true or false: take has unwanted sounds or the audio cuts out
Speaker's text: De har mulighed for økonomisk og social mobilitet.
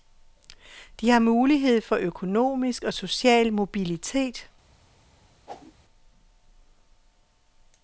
true